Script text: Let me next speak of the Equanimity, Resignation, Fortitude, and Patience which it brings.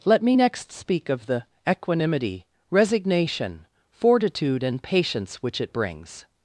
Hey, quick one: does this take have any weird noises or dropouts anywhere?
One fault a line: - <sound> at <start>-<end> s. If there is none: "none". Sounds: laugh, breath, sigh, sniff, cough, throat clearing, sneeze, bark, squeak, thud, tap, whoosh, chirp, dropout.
none